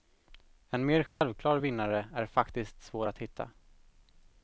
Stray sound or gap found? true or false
true